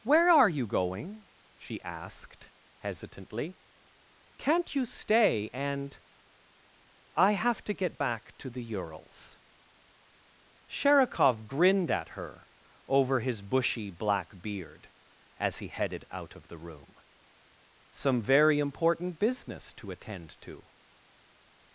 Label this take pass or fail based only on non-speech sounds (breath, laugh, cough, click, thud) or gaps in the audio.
pass